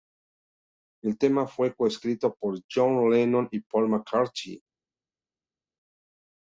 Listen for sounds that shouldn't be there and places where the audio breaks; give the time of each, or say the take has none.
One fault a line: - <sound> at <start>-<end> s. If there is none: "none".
none